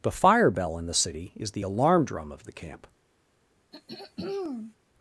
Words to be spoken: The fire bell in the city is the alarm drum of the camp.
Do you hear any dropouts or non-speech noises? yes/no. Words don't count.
yes